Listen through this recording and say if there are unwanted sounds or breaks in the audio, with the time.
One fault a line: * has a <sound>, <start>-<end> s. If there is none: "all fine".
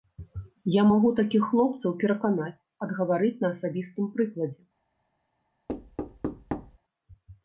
* has a thud, 5.7-6.8 s